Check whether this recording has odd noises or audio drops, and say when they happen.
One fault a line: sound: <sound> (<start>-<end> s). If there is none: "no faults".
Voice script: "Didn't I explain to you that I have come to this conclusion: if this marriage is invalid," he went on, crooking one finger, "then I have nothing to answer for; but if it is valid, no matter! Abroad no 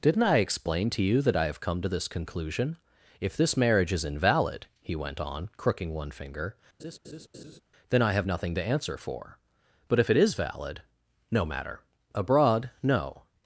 sound: laugh (6.8-7.6 s)